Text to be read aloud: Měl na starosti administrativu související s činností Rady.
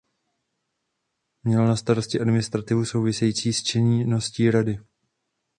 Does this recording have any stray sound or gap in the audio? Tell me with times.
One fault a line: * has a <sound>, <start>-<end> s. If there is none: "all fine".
all fine